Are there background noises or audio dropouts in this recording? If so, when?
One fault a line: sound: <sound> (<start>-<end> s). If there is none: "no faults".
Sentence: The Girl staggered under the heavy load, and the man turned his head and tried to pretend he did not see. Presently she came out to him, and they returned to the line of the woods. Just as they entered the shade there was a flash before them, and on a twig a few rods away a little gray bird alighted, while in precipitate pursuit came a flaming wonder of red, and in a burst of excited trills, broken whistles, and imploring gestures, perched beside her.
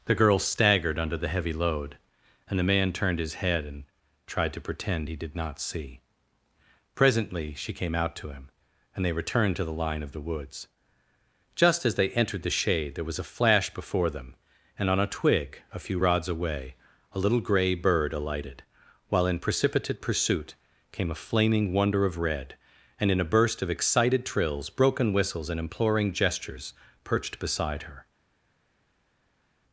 no faults